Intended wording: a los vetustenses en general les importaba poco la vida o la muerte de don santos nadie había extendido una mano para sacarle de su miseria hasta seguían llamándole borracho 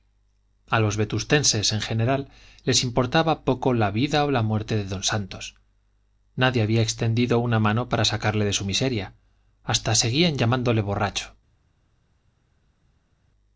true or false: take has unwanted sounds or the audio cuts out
false